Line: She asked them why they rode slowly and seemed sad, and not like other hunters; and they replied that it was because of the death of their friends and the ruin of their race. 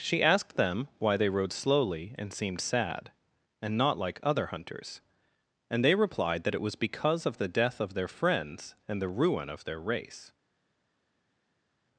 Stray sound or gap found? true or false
false